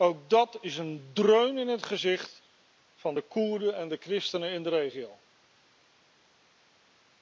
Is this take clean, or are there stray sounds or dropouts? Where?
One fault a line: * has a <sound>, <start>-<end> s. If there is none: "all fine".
all fine